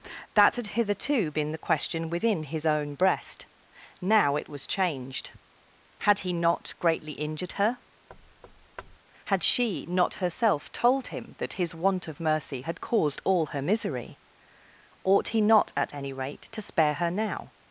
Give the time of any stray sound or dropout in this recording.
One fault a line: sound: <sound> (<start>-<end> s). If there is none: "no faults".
sound: thud (8.1-9.0 s)